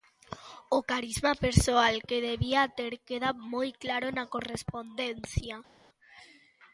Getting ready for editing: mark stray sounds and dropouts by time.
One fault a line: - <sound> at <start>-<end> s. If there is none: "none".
none